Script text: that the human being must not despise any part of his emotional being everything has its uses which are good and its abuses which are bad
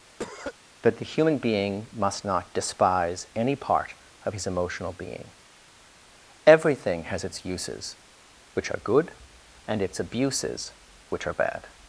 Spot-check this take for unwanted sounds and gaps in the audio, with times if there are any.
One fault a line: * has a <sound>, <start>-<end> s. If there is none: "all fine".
* has a cough, 0.2-0.5 s